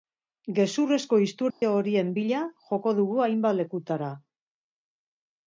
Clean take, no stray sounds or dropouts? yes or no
no